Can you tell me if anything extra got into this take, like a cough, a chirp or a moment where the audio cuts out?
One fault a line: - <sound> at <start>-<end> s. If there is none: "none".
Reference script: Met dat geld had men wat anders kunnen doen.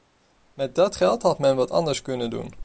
none